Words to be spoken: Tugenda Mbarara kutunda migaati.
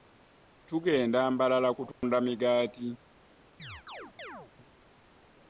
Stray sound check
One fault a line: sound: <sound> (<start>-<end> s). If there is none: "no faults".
sound: dropout (1.9-2.0 s)
sound: chirp (3.6-4.5 s)